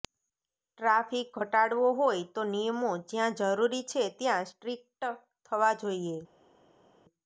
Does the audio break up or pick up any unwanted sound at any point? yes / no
no